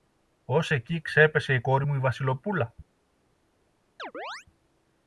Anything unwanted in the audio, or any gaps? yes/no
yes